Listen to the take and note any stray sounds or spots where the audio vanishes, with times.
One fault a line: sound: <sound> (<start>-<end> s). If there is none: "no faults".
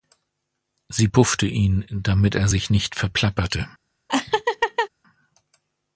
sound: laugh (4.1-4.9 s)